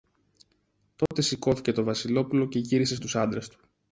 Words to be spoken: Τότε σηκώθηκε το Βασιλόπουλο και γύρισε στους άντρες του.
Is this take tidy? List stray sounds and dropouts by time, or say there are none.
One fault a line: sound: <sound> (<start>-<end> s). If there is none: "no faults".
sound: dropout (1.1-1.1 s)